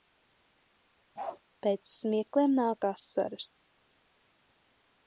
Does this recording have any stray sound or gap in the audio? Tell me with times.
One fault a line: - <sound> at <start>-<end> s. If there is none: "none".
- bark at 1.2-1.4 s